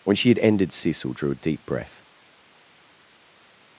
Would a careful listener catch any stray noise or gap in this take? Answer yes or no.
no